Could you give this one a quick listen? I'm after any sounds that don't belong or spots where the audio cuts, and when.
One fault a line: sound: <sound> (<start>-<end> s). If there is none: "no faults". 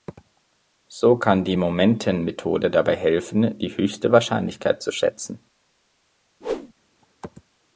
sound: whoosh (6.4-6.7 s)